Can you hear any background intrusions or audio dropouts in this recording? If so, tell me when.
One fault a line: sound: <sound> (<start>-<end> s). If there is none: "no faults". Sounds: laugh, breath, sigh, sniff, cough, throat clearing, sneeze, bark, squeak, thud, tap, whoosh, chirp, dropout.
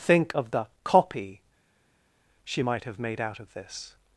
no faults